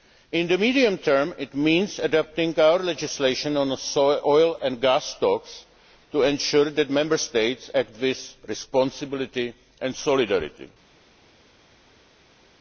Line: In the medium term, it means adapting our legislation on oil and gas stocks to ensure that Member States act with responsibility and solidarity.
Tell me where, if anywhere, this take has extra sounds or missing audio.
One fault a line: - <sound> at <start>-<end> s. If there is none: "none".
none